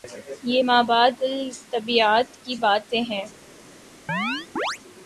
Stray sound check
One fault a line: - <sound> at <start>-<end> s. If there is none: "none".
- chirp at 4.1-4.8 s